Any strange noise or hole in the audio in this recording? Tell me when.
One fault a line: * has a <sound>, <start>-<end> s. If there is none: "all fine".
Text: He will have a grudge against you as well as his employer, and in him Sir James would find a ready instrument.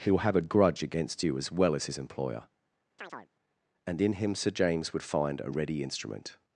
* has a chirp, 3.0-3.3 s